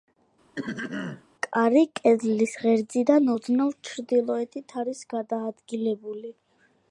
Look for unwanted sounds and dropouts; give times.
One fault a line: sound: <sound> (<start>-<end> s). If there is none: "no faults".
sound: throat clearing (0.6-1.2 s)